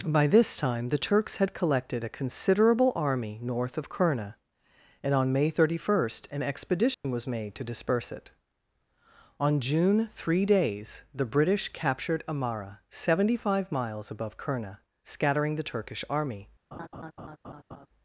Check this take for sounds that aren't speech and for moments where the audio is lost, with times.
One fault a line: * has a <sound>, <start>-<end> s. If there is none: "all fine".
* has a dropout, 6.9-7.0 s
* has a laugh, 16.7-17.9 s